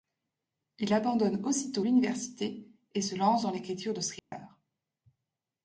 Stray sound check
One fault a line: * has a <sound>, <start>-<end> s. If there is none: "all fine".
* has a dropout, 4.2-4.3 s